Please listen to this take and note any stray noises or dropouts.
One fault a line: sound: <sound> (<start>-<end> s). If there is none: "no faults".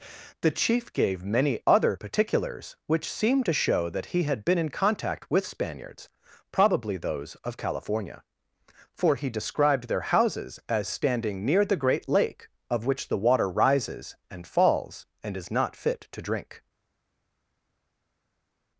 no faults